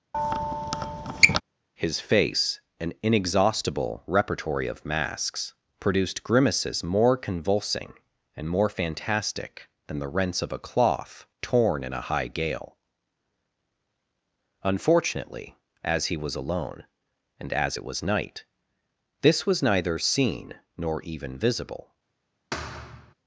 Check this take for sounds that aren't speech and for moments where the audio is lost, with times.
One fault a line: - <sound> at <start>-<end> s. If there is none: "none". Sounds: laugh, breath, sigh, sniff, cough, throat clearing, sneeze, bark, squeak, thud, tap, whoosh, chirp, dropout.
- squeak at 0.1-1.4 s
- thud at 22.5-23.1 s